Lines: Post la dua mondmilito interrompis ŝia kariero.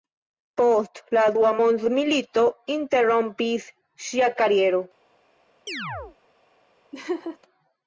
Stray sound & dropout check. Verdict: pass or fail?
fail